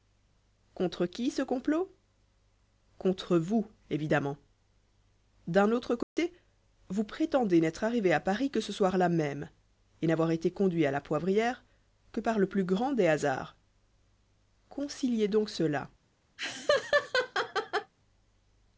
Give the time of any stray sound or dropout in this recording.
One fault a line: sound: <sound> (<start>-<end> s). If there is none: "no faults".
sound: dropout (6.0-6.2 s)
sound: laugh (16.4-17.9 s)